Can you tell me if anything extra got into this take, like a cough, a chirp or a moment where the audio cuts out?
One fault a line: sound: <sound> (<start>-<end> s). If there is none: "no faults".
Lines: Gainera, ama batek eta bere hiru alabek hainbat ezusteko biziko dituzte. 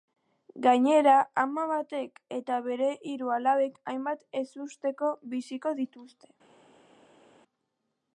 no faults